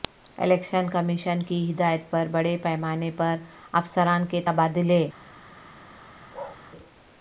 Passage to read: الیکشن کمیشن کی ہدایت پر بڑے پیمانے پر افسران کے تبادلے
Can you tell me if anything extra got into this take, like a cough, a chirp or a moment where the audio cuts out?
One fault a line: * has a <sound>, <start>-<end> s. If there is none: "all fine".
* has a bark, 6.3-6.6 s